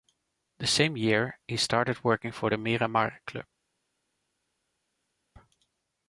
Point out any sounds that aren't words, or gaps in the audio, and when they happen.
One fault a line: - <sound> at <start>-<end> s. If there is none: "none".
none